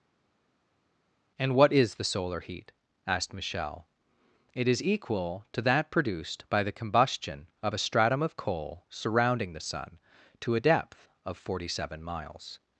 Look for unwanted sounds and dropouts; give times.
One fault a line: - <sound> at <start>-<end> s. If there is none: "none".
none